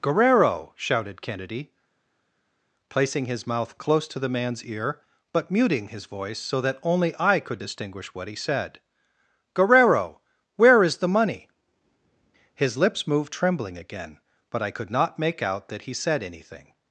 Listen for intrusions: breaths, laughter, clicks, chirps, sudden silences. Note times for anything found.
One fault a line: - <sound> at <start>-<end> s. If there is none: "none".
none